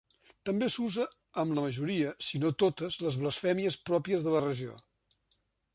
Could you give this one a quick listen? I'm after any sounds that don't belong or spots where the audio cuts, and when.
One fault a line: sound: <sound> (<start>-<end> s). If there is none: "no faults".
no faults